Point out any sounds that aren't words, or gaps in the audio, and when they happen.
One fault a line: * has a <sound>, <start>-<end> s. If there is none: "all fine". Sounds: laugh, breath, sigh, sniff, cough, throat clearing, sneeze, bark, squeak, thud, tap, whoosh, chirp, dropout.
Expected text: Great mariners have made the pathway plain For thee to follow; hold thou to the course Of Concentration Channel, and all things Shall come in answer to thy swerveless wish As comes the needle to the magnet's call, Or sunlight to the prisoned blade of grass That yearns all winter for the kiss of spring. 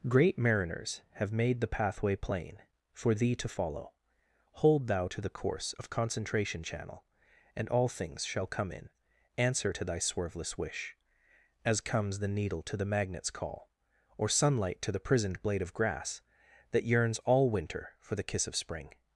all fine